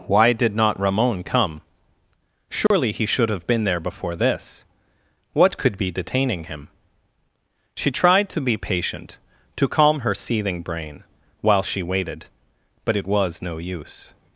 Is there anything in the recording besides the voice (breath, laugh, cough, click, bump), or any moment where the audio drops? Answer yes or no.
yes